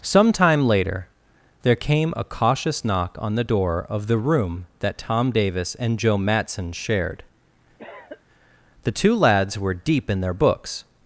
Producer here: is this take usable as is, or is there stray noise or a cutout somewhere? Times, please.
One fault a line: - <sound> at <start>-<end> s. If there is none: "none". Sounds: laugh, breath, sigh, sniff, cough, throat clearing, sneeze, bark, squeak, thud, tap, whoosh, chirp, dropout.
- cough at 7.8-8.2 s